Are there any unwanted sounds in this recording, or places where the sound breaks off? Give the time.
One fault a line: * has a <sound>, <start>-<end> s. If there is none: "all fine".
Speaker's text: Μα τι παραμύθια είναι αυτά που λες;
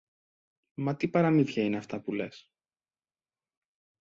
all fine